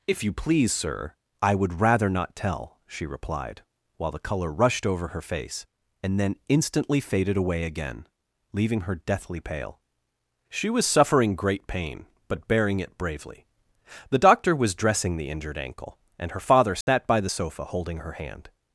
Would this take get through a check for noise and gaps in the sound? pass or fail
fail